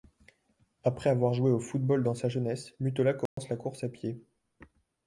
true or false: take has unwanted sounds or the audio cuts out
true